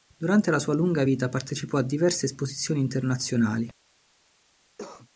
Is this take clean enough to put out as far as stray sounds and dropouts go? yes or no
no